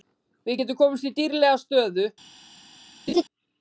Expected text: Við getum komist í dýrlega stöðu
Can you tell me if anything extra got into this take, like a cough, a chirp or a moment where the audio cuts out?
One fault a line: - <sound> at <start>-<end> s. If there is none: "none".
- laugh at 3.1-3.2 s